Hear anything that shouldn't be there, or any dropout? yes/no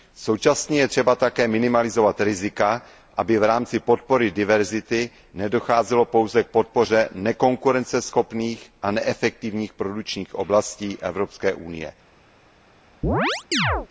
yes